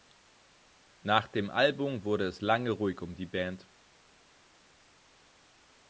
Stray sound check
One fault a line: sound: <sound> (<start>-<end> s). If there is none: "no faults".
no faults